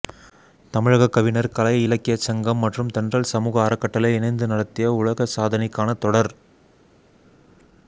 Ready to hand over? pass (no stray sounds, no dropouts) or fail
pass